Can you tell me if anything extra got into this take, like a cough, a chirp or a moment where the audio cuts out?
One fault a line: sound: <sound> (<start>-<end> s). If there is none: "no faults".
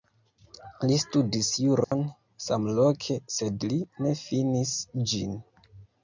sound: dropout (1.8-1.9 s)